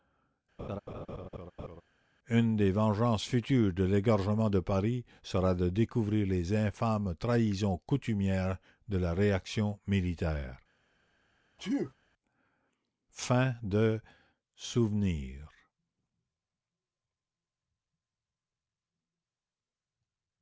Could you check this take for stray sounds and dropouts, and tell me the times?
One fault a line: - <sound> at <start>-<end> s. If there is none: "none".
- laugh at 0.6-1.8 s
- sneeze at 11.6-11.9 s